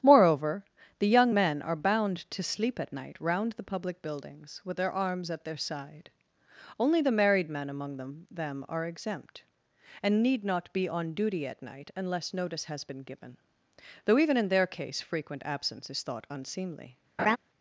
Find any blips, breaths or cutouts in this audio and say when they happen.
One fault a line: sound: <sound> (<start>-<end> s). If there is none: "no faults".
sound: laugh (17.2-17.4 s)